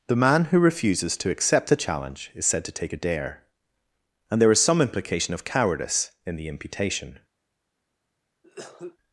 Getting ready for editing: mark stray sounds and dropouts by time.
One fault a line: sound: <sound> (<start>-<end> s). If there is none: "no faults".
sound: cough (8.4-9.0 s)